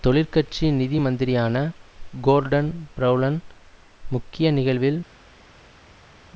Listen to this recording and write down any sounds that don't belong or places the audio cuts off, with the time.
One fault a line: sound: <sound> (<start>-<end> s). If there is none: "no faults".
no faults